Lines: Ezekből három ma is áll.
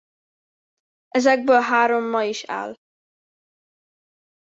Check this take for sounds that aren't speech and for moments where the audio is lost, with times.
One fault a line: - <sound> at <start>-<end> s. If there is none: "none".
none